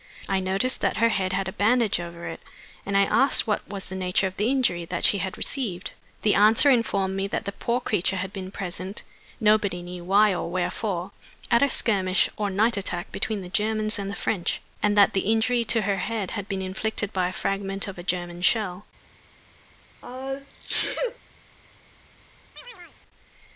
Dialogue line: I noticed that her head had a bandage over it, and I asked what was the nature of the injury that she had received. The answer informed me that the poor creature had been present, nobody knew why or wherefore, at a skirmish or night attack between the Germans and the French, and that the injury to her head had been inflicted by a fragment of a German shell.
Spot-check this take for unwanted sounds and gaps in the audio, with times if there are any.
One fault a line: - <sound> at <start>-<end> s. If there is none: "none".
- sneeze at 20.0-21.2 s
- chirp at 22.6-23.0 s